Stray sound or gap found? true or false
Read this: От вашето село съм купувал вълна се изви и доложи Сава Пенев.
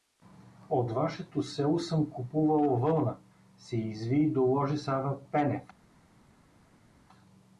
false